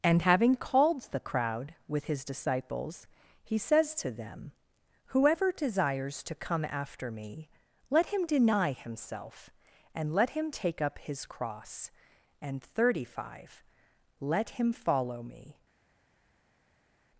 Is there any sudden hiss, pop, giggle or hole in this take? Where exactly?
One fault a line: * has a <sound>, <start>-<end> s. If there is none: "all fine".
all fine